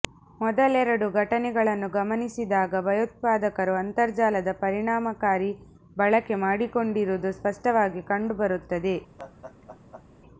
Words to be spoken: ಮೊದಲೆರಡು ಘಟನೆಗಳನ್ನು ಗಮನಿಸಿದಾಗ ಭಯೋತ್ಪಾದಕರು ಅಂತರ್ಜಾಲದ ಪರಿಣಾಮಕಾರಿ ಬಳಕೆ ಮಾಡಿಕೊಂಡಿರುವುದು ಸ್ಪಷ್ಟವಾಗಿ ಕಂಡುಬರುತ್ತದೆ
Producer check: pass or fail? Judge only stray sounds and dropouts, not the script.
fail